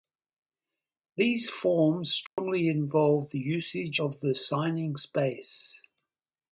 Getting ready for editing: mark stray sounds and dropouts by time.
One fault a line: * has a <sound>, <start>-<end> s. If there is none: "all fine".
* has a dropout, 2.3-2.4 s